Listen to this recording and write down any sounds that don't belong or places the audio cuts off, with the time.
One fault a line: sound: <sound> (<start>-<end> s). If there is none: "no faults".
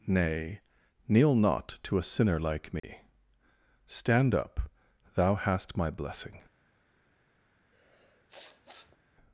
sound: dropout (2.8-2.8 s)
sound: sniff (7.7-9.0 s)